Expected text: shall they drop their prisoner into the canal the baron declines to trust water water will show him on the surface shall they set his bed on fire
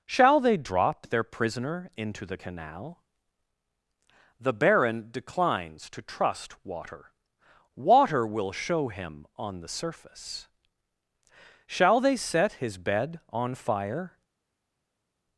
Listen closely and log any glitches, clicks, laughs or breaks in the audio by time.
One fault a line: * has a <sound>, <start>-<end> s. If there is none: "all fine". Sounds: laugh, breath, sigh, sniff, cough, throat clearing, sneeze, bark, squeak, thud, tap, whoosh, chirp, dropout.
all fine